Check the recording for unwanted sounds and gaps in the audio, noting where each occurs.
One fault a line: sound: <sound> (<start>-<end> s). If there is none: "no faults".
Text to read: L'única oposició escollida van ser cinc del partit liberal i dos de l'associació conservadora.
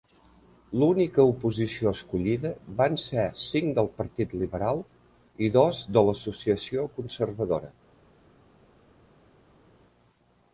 no faults